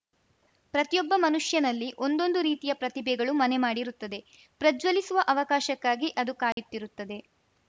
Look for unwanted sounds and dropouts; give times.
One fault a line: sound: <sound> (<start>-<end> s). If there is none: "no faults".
sound: dropout (6.5-6.6 s)